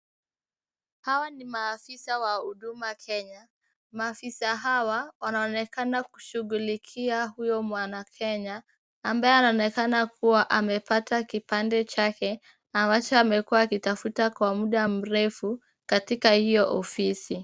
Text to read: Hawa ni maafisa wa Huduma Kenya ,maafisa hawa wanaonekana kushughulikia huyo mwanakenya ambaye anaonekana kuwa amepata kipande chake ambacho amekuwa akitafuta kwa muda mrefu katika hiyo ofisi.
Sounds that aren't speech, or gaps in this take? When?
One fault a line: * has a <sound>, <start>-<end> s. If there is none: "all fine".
all fine